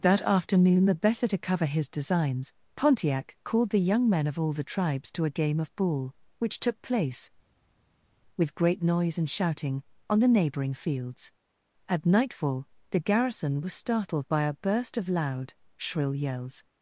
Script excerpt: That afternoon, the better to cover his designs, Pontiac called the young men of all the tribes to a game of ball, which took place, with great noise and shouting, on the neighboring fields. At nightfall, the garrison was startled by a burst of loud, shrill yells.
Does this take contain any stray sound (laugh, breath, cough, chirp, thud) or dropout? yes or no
no